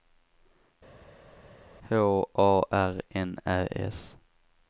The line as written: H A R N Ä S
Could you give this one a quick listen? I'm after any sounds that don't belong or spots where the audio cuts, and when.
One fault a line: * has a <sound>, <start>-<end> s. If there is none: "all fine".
all fine